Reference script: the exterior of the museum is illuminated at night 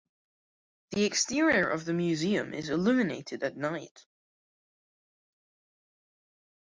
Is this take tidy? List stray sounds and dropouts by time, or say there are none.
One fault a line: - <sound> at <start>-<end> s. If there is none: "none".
none